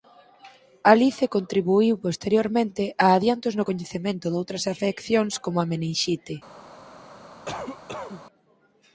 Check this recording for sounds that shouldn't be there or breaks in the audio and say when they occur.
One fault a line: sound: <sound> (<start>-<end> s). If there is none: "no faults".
sound: cough (7.5-8.2 s)